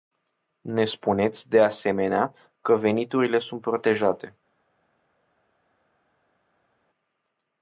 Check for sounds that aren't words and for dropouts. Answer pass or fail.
pass